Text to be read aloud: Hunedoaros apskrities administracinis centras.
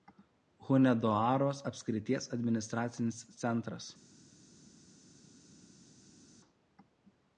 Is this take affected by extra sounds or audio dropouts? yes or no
no